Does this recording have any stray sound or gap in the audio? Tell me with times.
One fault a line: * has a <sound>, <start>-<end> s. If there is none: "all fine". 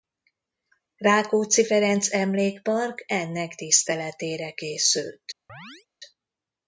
* has a chirp, 5.5-5.9 s